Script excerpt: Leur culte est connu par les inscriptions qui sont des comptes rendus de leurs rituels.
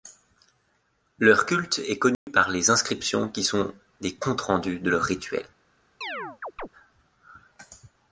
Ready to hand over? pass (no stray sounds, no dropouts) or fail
fail